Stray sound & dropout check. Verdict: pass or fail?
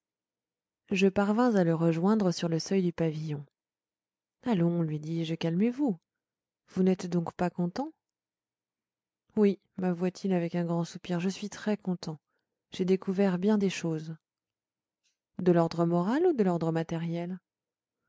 pass